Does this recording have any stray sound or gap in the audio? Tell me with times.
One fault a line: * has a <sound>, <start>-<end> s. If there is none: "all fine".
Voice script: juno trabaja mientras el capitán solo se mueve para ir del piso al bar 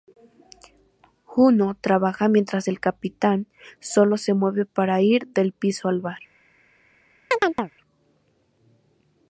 * has a chirp, 7.3-7.7 s